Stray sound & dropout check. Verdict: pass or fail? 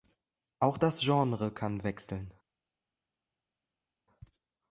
pass